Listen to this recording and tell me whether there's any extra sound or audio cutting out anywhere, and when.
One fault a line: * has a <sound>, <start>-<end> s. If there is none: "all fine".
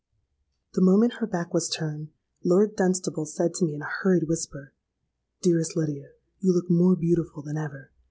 all fine